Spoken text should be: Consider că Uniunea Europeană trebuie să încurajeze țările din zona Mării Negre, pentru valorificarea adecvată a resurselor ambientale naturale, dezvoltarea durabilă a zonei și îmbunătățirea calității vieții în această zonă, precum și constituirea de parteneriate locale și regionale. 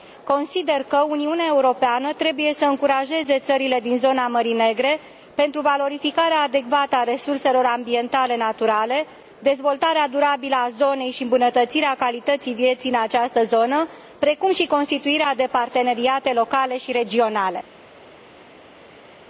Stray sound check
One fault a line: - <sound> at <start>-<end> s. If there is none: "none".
none